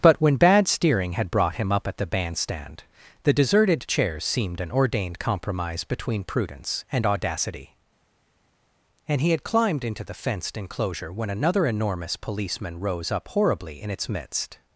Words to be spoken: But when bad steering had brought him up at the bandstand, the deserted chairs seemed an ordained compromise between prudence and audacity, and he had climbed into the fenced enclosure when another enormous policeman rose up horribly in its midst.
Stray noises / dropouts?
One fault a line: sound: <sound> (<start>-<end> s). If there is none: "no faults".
no faults